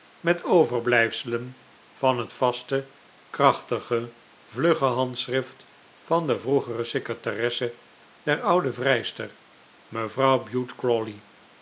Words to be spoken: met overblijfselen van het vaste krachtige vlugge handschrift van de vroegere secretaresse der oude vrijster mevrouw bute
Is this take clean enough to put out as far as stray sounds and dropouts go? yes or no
yes